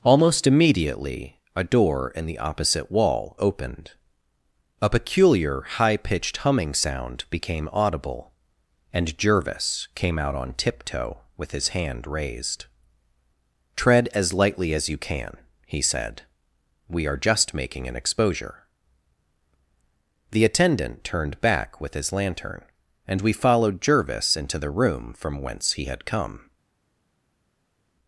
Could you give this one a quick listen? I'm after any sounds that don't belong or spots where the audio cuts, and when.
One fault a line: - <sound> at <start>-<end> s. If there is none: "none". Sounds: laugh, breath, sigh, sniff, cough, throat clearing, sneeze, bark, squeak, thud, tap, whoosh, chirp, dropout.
none